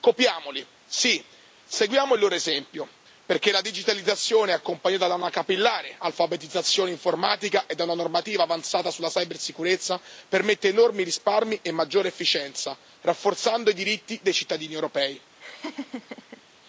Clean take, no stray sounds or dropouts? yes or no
no